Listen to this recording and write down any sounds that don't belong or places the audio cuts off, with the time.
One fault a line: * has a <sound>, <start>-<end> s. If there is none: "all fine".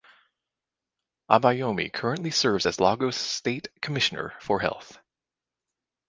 all fine